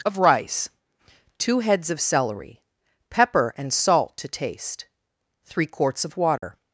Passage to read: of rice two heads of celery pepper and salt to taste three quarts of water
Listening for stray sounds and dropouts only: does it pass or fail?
fail